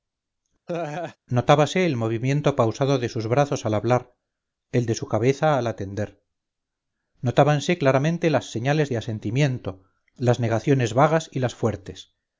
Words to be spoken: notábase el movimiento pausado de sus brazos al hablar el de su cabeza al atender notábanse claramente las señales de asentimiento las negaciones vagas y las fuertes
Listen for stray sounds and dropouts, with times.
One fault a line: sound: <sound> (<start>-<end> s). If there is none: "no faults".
sound: laugh (0.7-1.2 s)